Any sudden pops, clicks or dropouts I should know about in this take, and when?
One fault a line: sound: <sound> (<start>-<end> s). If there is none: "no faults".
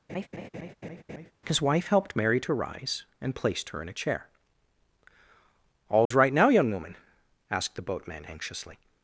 sound: laugh (0.1-1.3 s)
sound: dropout (6.1-6.1 s)